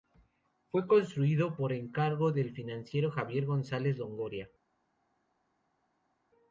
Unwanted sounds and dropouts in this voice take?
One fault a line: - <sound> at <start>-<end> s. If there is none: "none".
none